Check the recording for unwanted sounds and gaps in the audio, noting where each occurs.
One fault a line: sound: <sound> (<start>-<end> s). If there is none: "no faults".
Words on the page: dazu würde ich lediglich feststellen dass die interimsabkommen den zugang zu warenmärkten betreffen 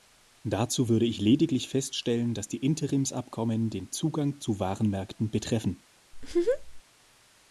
sound: laugh (6.1-6.8 s)